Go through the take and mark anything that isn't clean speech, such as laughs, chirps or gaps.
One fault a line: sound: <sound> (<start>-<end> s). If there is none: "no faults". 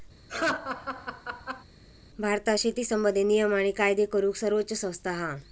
sound: laugh (0.3-1.6 s)